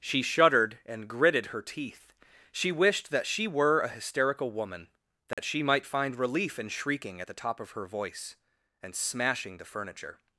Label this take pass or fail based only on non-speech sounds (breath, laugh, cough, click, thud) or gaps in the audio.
fail